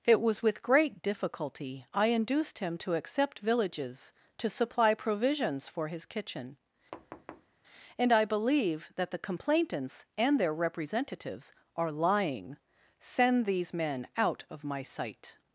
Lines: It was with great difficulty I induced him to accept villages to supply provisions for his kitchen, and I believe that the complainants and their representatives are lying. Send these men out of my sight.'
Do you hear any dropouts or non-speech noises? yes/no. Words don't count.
yes